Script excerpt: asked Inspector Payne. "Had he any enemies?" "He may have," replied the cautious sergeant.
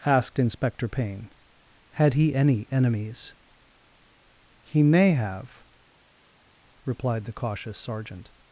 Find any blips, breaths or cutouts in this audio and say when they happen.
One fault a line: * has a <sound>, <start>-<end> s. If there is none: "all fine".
all fine